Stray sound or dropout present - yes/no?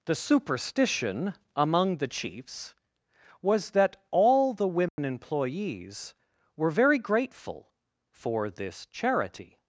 yes